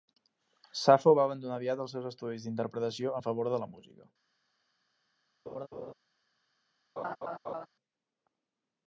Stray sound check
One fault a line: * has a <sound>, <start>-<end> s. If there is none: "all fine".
* has a laugh, 5.5-5.9 s
* has a laugh, 7.0-7.7 s